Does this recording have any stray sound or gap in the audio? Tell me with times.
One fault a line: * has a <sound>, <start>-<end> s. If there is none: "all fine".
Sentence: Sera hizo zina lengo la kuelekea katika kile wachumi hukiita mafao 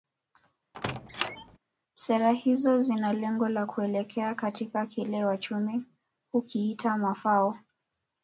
* has a squeak, 0.7-1.6 s